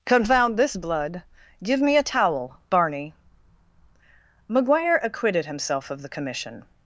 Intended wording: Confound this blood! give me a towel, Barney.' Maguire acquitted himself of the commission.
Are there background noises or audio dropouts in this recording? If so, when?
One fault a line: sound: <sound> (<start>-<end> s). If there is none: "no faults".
no faults